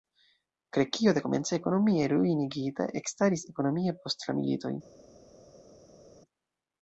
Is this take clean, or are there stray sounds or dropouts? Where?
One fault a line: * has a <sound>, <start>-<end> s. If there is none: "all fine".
all fine